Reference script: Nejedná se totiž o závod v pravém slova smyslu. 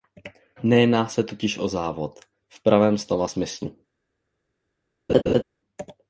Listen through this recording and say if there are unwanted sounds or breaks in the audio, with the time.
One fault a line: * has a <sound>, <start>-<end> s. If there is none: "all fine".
* has a laugh, 5.1-5.4 s